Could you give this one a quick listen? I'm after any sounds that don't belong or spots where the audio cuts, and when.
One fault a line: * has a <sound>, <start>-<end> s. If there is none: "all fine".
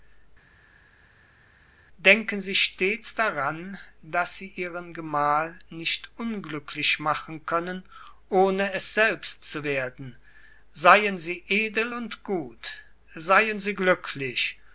all fine